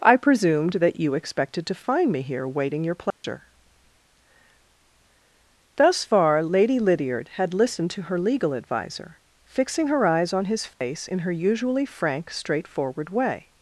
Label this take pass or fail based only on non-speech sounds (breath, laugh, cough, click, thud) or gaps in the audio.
fail